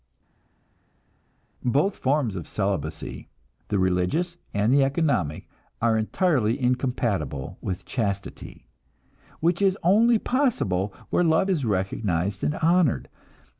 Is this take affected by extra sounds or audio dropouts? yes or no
no